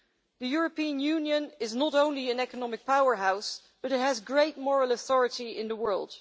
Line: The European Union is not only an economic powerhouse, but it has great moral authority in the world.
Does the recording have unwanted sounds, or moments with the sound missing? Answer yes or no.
no